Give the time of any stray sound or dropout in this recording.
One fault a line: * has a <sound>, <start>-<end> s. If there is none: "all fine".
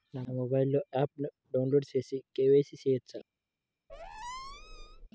* has a squeak, 3.9-5.1 s